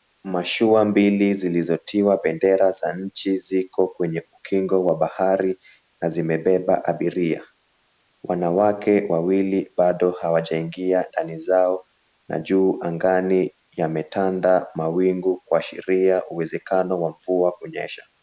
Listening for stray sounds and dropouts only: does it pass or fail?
pass